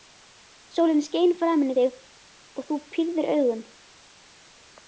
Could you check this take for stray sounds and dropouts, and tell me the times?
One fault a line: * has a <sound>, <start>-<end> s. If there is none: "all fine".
all fine